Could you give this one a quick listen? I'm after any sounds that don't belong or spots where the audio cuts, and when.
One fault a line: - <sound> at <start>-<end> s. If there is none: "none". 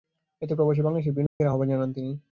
- dropout at 1.3-1.4 s